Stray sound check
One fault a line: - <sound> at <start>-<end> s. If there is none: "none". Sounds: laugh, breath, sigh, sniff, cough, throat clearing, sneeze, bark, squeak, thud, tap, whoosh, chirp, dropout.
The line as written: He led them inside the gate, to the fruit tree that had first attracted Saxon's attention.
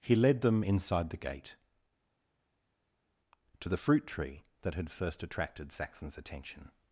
none